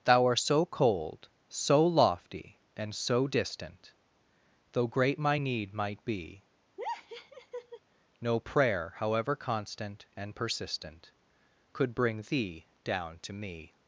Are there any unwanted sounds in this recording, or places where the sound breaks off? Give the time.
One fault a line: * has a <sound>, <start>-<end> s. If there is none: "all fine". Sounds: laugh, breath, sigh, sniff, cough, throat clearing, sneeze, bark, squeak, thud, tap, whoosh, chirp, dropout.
* has a laugh, 6.8-7.8 s